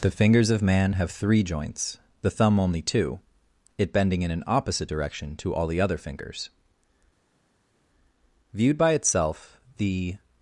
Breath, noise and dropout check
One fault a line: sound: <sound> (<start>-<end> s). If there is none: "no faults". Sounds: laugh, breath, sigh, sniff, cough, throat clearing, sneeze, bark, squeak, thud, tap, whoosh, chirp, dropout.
no faults